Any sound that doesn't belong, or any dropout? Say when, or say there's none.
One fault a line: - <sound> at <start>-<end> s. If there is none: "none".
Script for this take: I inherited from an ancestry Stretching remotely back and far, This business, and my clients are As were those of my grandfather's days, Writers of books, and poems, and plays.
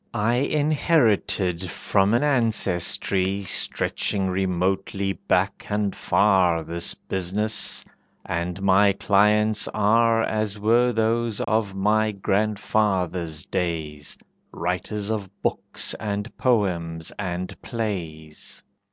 - dropout at 11.4-11.5 s